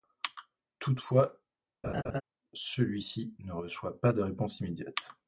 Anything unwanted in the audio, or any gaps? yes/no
yes